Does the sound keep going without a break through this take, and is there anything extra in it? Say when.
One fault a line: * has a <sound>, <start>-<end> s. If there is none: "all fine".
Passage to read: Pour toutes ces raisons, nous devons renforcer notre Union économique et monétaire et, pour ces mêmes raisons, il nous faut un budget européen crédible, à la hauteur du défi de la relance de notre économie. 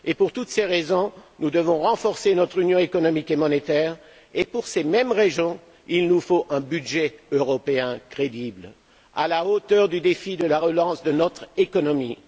all fine